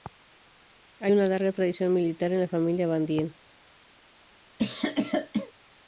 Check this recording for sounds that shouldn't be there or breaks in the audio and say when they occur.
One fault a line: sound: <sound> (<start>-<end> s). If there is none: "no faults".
sound: cough (4.6-5.5 s)